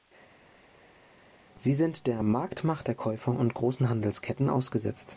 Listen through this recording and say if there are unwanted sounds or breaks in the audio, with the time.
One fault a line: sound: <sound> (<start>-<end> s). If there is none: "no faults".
no faults